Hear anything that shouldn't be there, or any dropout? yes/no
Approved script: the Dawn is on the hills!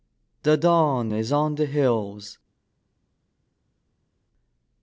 no